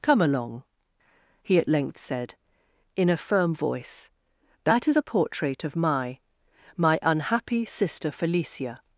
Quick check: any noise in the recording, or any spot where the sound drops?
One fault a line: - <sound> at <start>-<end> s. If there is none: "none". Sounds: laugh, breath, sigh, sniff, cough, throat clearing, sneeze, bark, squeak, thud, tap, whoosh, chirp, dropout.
none